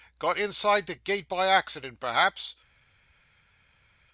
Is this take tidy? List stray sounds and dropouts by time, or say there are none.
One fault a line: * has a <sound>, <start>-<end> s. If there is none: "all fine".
all fine